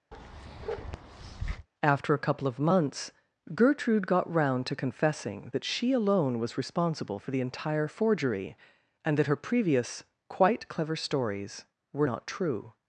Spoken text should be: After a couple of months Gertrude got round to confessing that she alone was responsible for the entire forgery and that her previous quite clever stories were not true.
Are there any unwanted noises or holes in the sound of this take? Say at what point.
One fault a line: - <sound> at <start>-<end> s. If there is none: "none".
- bark at 0.1-1.7 s